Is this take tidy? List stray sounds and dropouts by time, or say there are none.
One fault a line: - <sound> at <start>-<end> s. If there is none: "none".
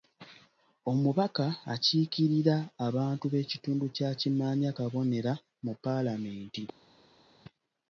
none